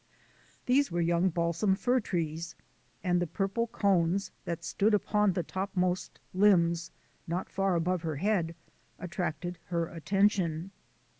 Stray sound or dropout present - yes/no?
no